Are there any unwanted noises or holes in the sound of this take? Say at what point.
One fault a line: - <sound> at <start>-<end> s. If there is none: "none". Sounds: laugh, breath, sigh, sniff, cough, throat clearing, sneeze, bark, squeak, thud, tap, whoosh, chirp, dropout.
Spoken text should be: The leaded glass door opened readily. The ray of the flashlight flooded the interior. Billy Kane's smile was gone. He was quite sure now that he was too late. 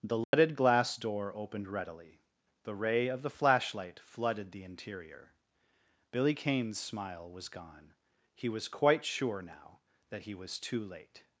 - dropout at 0.2-0.3 s